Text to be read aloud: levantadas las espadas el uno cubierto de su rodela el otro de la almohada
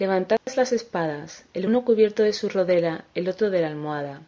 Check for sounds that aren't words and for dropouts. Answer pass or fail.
fail